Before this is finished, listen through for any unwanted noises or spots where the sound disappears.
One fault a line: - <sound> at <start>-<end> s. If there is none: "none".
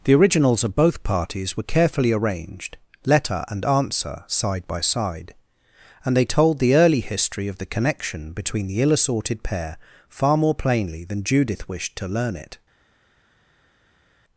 none